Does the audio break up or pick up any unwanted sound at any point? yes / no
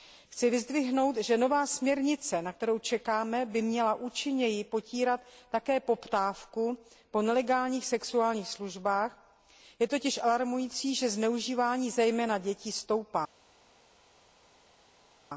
no